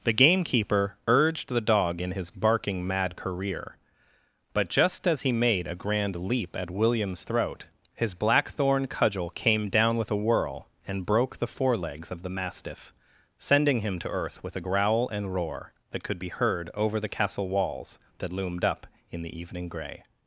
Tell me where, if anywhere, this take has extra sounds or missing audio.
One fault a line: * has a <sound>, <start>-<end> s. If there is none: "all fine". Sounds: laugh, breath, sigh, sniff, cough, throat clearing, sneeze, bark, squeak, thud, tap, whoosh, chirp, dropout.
all fine